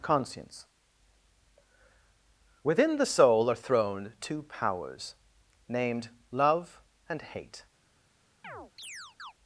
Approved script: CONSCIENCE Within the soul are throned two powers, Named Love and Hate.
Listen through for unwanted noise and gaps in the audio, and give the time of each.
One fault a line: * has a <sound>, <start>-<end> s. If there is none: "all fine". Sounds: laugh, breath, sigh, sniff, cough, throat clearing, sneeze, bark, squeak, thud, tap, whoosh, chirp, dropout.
* has a chirp, 8.4-9.3 s